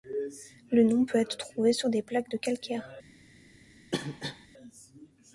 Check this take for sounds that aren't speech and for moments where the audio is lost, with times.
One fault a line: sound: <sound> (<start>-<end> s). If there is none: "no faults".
sound: cough (3.9-4.5 s)